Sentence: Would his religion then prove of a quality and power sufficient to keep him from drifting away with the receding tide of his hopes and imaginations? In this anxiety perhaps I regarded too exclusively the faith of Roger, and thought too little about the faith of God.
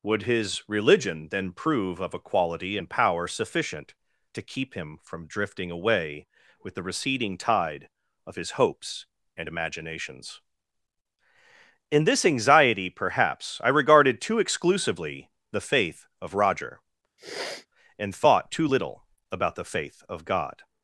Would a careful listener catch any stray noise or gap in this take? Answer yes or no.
yes